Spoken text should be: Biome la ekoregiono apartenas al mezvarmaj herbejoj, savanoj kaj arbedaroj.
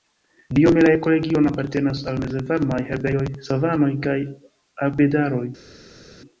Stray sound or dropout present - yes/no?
no